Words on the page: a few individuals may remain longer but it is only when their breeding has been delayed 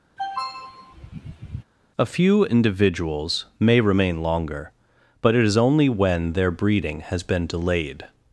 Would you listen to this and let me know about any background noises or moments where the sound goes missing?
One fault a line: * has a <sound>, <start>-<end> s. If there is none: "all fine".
* has a throat clearing, 0.2-1.6 s